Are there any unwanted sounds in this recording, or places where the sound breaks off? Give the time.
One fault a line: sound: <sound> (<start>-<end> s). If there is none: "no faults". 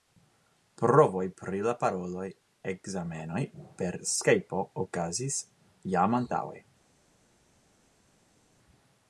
no faults